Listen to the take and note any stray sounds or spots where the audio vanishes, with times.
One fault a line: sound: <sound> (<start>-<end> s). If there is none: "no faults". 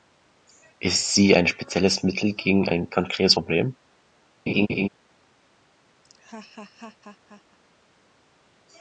sound: laugh (4.5-4.9 s)
sound: laugh (6.0-7.6 s)